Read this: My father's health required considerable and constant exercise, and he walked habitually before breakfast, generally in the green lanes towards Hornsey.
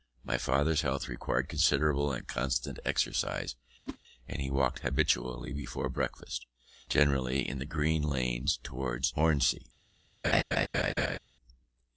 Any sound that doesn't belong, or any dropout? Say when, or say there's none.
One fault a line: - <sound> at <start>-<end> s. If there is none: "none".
- whoosh at 3.9-4.0 s
- laugh at 10.2-11.2 s